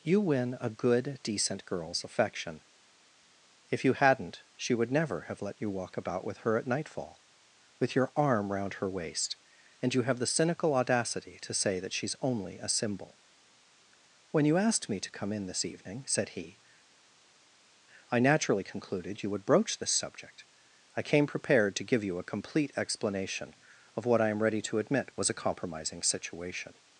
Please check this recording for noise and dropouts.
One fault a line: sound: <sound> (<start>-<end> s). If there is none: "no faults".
no faults